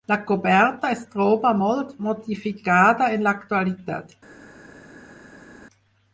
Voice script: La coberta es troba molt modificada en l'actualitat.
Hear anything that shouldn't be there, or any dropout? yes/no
no